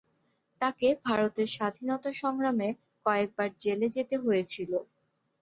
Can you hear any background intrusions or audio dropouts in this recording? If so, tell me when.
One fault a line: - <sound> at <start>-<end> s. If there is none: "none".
none